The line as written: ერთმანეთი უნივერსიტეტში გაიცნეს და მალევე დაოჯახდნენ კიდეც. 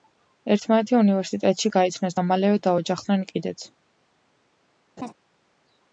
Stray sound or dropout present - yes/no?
yes